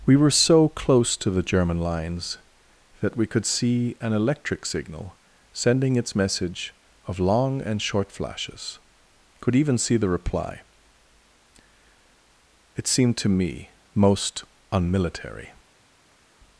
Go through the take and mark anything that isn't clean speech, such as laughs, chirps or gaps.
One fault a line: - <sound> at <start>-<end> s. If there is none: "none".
none